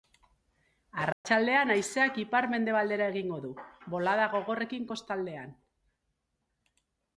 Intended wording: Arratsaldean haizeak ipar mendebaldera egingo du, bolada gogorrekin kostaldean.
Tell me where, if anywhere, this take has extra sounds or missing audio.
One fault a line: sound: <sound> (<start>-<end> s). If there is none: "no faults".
sound: dropout (1.1-1.2 s)